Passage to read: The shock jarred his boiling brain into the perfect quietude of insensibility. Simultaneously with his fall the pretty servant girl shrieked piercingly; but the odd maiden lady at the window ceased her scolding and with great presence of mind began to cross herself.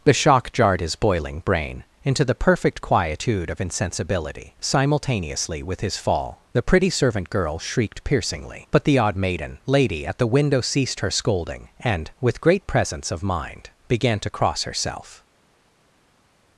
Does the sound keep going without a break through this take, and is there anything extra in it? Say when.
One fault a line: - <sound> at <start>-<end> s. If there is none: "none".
none